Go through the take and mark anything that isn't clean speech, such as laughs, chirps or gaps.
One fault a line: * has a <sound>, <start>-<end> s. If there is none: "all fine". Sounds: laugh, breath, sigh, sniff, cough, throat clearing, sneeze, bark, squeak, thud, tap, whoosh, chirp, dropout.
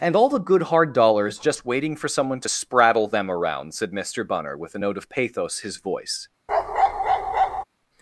* has a bark, 6.5-7.6 s